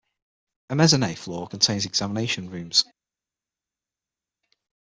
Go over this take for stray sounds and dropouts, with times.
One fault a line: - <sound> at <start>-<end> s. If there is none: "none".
none